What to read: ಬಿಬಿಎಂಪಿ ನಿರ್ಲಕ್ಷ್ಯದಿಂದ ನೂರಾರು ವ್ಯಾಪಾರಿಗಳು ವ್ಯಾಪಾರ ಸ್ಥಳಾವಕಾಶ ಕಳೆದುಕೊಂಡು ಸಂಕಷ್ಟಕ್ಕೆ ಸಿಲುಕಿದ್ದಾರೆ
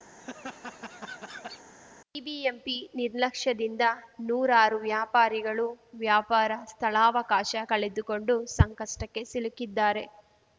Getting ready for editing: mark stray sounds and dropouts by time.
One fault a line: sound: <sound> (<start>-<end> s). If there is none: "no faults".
sound: laugh (0.1-1.6 s)